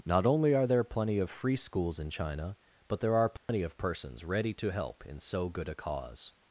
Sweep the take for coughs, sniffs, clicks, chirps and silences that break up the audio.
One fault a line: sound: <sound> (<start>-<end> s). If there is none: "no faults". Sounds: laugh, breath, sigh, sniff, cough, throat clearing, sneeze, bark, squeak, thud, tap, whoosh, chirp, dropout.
sound: dropout (3.4-3.5 s)